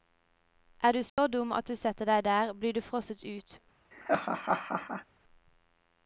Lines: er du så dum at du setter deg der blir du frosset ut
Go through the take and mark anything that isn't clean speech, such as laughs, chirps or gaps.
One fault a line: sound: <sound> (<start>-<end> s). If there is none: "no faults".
sound: dropout (1.1-1.2 s)
sound: laugh (3.9-5.0 s)